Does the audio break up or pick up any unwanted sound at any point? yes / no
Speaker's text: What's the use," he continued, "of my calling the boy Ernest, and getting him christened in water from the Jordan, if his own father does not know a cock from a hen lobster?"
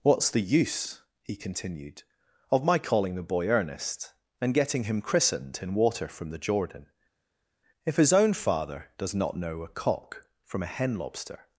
no